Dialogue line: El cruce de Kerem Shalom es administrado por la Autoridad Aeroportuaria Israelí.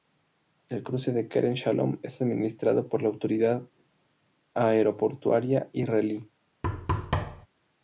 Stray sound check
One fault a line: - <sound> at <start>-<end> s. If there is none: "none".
- thud at 6.6-7.5 s